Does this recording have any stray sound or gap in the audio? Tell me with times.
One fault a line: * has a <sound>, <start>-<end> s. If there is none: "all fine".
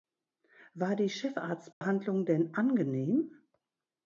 * has a dropout, 1.7-1.8 s